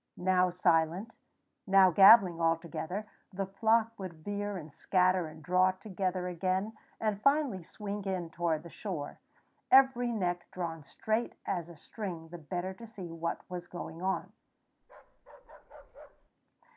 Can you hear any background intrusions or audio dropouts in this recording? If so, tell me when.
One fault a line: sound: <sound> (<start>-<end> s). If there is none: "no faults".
sound: bark (14.8-16.3 s)